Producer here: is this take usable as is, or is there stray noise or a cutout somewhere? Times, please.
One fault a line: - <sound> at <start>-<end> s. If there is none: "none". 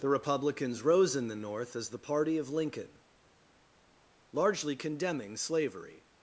none